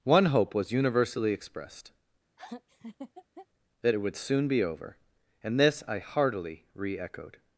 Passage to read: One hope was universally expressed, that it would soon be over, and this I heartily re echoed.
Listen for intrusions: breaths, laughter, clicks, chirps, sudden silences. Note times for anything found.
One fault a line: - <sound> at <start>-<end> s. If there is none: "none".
- laugh at 2.4-3.5 s